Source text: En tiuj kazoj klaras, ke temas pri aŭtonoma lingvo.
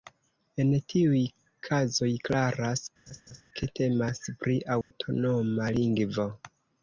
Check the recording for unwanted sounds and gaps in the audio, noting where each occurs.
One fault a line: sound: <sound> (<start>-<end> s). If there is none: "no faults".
sound: laugh (3.1-3.4 s)
sound: dropout (4.8-4.9 s)